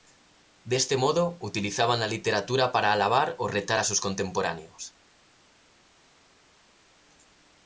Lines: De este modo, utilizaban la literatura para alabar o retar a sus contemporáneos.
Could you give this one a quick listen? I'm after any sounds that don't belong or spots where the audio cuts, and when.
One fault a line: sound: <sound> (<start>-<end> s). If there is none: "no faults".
no faults